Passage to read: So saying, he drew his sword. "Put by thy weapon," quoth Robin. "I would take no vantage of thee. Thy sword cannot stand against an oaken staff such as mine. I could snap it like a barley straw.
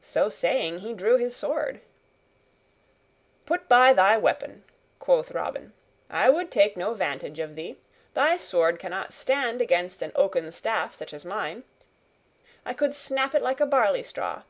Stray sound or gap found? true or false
false